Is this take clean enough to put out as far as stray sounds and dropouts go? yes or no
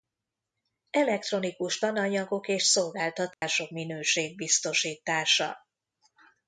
no